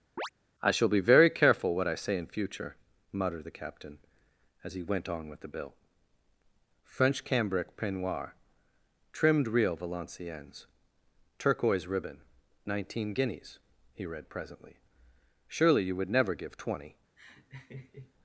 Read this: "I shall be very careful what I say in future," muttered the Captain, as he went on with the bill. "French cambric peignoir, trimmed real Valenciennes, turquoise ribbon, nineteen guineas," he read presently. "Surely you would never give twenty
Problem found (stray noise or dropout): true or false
true